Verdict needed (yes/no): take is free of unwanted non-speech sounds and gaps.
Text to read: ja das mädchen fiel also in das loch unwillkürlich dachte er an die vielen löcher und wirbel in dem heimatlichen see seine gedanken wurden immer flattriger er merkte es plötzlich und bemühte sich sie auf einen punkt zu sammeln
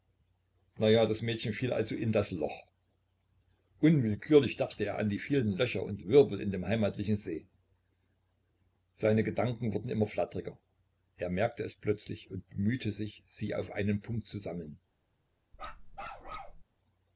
no